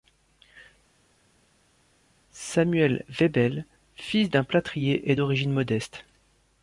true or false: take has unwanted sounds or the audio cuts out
false